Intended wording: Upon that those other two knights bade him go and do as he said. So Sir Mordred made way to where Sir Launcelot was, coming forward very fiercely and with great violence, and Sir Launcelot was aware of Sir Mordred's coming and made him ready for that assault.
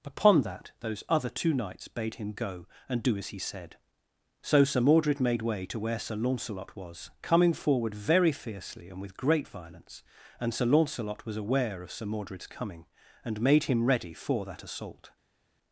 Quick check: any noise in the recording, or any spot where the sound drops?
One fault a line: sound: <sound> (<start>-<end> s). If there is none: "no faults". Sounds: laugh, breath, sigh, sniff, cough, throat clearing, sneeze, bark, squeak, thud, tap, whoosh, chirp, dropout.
no faults